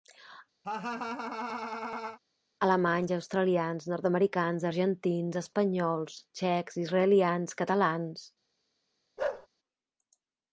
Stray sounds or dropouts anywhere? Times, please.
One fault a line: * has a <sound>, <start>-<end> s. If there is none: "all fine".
* has a laugh, 0.6-2.2 s
* has a bark, 9.2-9.5 s